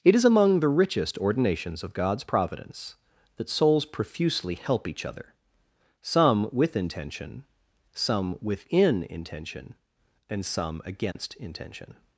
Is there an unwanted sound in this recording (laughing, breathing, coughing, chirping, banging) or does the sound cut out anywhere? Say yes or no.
yes